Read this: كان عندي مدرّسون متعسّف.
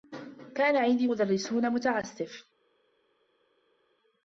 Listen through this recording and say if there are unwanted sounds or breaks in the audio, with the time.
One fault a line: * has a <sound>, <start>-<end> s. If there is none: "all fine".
all fine